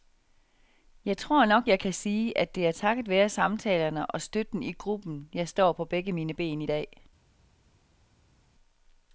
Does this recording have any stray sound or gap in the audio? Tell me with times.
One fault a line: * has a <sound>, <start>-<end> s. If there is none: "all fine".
all fine